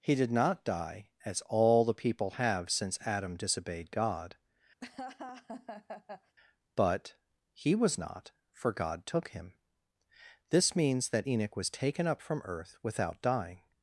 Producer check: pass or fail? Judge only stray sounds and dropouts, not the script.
fail